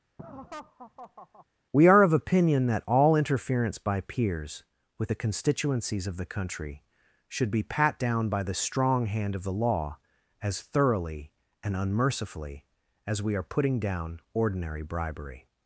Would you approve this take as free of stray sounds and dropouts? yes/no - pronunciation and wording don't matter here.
no